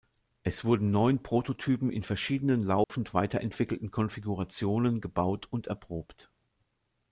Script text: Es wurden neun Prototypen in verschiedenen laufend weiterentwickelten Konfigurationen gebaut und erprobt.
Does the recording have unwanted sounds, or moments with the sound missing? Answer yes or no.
yes